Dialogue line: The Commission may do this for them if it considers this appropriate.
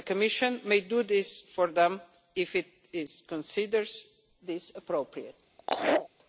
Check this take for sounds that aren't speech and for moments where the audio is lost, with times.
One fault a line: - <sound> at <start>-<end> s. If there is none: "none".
- laugh at 5.6-6.1 s